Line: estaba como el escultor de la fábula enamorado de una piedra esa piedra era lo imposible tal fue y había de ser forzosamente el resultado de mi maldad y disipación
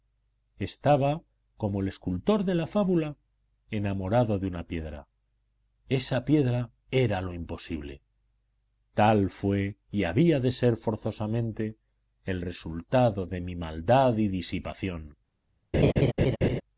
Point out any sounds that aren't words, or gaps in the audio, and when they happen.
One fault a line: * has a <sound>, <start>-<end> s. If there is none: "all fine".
* has a laugh, 15.7-16.6 s